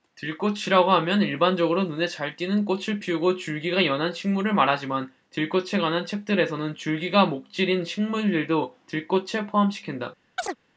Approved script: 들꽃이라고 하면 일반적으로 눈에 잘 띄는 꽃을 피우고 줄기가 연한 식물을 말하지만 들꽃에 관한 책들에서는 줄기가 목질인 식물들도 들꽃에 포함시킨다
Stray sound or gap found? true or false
true